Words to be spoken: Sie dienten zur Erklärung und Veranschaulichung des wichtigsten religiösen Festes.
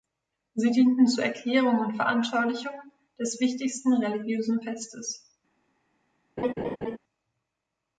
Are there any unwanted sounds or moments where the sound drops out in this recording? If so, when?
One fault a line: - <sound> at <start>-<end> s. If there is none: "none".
- laugh at 6.4-7.0 s